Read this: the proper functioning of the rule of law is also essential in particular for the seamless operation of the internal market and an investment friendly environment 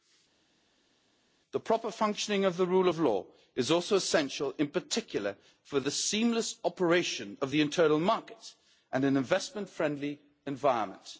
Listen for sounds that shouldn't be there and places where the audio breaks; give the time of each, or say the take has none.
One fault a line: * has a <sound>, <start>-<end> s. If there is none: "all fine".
all fine